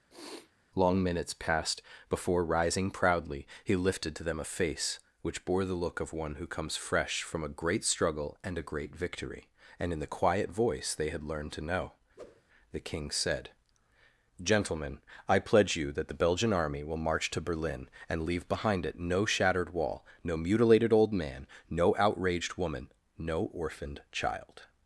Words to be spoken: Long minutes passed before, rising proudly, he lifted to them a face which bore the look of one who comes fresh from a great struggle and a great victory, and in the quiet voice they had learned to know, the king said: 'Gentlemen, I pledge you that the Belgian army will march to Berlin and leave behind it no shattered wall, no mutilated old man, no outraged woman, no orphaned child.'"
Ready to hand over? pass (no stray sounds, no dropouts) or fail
fail